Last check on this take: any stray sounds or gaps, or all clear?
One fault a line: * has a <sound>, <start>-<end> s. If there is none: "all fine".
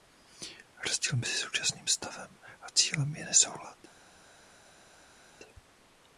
all fine